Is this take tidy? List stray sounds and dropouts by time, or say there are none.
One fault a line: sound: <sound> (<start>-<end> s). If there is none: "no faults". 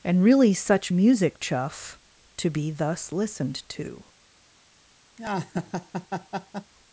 sound: laugh (5.2-6.7 s)